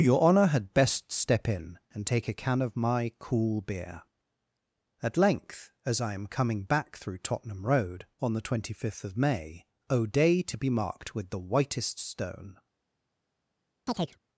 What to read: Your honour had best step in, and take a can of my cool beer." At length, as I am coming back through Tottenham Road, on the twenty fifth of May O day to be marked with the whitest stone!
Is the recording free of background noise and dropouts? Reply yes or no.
no